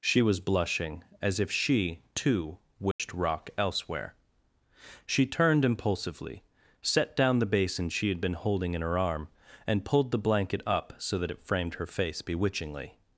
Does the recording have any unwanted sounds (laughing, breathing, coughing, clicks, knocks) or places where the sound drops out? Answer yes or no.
yes